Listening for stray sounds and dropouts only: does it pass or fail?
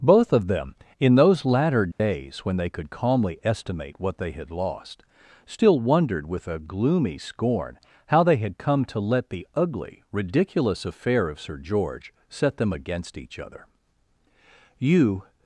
fail